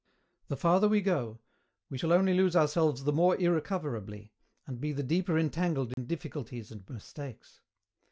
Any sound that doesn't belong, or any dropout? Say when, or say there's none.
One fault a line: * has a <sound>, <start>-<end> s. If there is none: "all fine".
* has a dropout, 5.9-6.0 s